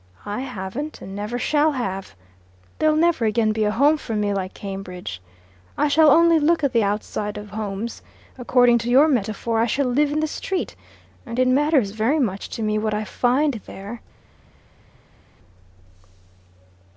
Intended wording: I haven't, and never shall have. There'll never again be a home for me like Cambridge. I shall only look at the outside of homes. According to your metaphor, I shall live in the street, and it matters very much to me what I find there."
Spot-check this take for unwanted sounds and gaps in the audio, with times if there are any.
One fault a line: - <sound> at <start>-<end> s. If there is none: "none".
none